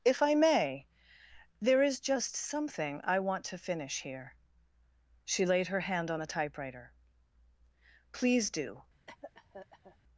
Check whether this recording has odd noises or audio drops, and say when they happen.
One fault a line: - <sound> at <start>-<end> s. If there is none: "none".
- cough at 9.1-10.0 s